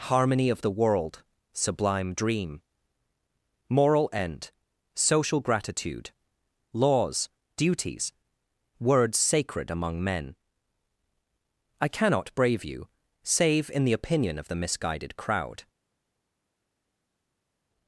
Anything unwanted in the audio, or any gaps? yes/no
no